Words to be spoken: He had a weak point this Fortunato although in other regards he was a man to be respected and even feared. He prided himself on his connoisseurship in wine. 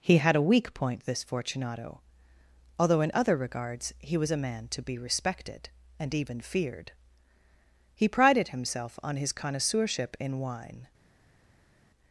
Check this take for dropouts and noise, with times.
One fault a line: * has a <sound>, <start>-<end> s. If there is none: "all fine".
all fine